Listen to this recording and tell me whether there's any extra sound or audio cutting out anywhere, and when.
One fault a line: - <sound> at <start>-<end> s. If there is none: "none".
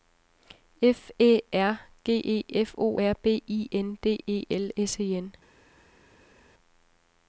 none